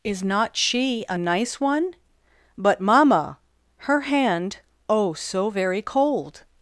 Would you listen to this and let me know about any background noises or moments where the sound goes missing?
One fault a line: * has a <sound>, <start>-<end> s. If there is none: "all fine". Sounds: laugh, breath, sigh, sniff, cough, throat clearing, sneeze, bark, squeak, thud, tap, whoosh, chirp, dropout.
all fine